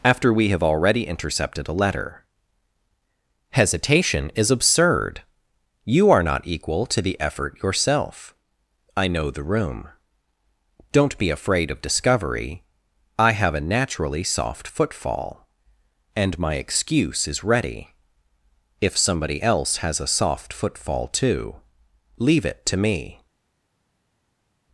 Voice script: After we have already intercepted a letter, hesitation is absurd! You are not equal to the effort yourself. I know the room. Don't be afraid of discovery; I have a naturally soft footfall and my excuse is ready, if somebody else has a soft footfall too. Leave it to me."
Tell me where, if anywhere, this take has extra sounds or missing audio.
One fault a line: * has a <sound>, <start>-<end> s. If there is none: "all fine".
all fine